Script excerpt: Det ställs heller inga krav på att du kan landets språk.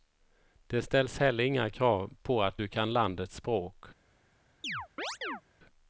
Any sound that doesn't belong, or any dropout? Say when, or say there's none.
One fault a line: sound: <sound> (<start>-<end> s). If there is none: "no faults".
sound: chirp (4.6-5.4 s)